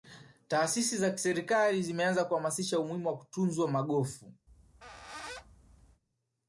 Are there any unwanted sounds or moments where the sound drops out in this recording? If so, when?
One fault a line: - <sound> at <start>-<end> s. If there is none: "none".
- squeak at 4.5-6.0 s